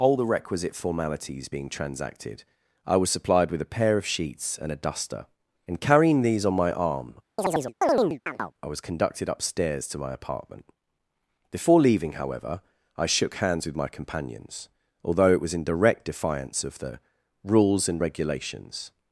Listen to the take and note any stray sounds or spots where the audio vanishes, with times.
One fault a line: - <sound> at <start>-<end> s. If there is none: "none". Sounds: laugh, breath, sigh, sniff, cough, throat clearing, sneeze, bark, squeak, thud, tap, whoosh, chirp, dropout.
- chirp at 7.4-8.5 s